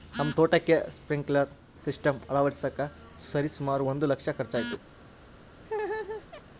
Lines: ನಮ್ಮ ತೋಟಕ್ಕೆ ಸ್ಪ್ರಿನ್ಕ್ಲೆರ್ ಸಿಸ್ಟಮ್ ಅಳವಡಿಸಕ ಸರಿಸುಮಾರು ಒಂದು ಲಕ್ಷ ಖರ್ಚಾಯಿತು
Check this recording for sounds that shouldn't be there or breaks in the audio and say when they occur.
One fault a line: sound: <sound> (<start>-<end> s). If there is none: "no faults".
sound: laugh (5.6-6.4 s)